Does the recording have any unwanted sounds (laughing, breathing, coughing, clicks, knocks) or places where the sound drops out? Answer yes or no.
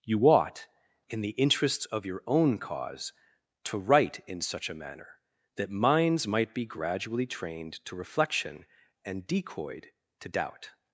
no